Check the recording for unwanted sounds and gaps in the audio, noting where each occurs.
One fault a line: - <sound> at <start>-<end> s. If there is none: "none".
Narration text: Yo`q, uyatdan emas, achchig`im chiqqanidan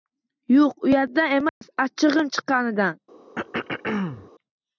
- dropout at 1.5-1.6 s
- throat clearing at 3.4-4.3 s